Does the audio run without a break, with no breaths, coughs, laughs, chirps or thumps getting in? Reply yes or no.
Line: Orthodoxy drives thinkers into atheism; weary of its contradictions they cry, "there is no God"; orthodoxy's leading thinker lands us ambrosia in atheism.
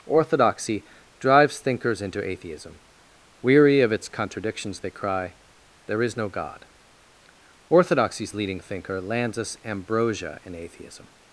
yes